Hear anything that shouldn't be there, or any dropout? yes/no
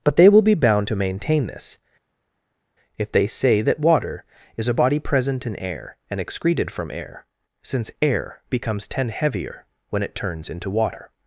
no